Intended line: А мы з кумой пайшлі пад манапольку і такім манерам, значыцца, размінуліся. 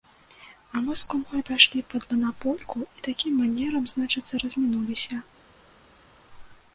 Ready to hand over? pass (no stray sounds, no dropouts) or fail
pass